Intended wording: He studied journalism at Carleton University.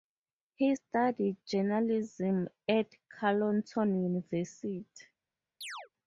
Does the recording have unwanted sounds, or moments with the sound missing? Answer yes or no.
yes